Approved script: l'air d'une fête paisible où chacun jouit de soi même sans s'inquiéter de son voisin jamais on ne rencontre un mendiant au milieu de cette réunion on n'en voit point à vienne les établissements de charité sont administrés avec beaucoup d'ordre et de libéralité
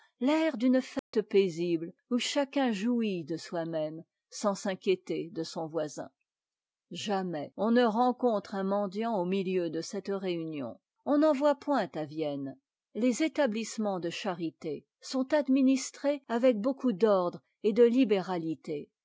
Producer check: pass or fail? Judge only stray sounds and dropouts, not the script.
fail